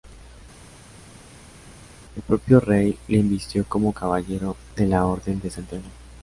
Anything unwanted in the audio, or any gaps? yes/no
no